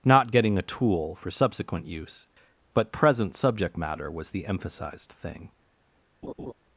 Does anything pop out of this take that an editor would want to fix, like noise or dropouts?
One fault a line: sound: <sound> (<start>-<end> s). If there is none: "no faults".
sound: laugh (6.2-6.5 s)